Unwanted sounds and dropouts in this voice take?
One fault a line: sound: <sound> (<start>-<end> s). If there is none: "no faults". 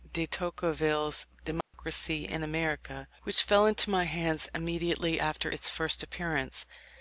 sound: dropout (1.6-1.7 s)